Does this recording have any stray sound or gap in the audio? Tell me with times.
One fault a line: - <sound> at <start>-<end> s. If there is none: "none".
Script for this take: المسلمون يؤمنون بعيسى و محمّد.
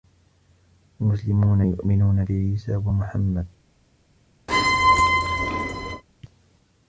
- squeak at 4.5-6.0 s